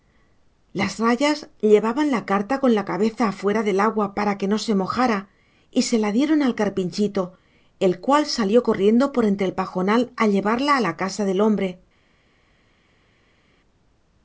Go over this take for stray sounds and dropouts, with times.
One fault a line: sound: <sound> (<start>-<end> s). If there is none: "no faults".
no faults